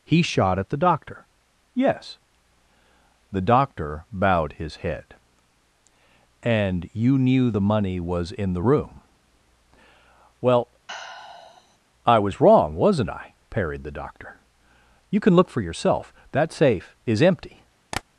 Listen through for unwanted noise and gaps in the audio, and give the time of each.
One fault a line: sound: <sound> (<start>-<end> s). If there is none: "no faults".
sound: sigh (10.9-11.8 s)
sound: tap (17.9-18.0 s)